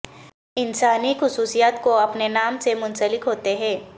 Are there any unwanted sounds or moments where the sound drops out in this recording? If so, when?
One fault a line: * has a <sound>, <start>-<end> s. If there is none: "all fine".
all fine